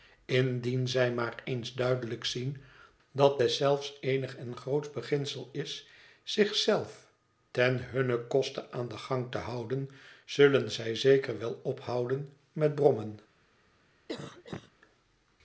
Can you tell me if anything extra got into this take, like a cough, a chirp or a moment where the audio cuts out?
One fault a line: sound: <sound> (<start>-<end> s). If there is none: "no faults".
sound: cough (14.1-14.7 s)